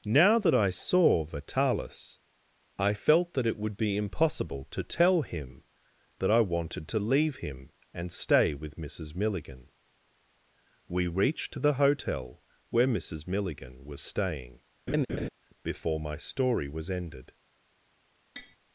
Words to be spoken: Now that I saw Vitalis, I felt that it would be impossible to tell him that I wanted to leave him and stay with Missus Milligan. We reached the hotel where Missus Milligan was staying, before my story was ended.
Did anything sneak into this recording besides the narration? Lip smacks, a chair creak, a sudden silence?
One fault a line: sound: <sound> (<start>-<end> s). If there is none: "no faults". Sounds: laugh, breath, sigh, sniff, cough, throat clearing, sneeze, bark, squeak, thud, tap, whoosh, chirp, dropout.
sound: laugh (14.9-15.3 s)
sound: tap (18.4-18.6 s)